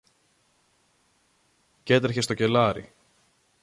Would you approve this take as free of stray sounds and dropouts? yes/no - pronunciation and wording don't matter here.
yes